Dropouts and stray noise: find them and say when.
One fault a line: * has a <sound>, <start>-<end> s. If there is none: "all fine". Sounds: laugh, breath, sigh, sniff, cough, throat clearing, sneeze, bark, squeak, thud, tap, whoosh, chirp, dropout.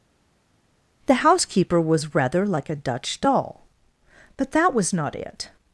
all fine